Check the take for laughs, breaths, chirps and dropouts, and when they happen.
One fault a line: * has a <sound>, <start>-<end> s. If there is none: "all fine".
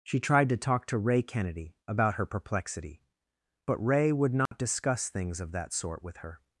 * has a dropout, 4.5-4.5 s